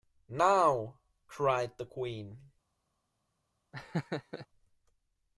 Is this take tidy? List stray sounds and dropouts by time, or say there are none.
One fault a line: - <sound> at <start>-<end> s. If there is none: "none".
- laugh at 3.7-4.5 s